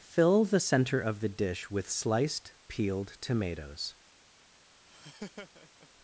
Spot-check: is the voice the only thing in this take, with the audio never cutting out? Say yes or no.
no